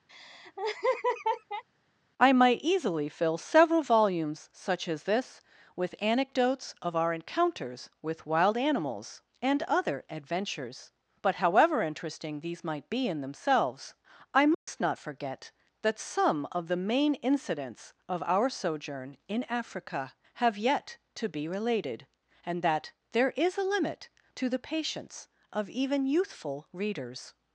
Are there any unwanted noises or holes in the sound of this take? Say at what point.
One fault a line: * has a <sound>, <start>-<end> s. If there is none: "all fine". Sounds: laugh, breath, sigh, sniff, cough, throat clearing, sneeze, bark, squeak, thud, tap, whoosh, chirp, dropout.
* has a laugh, 0.1-1.6 s
* has a dropout, 14.5-14.7 s